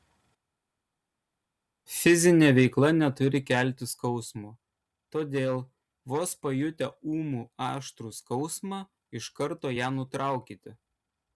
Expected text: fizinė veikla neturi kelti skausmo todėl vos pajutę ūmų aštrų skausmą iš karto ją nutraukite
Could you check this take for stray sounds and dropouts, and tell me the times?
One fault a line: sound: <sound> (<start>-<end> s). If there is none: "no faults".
no faults